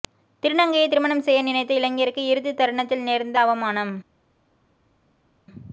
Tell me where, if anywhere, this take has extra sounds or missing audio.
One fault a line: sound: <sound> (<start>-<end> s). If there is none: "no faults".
no faults